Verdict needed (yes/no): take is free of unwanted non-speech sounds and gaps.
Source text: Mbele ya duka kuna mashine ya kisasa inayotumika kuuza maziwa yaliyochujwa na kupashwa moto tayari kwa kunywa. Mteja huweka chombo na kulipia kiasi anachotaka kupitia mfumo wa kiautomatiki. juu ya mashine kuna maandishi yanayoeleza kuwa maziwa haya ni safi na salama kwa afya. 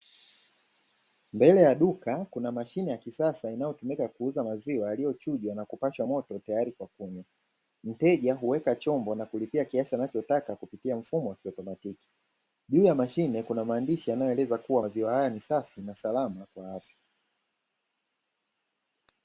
yes